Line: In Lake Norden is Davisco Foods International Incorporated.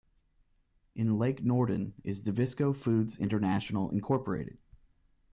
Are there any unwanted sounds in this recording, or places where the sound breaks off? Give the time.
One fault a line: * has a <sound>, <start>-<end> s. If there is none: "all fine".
all fine